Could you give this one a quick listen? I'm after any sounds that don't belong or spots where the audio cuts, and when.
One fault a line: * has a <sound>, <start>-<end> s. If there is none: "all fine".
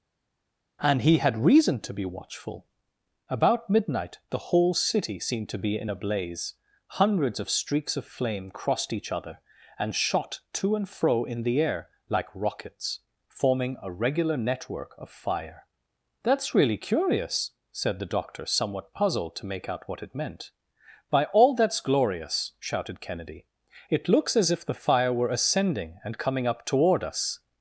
all fine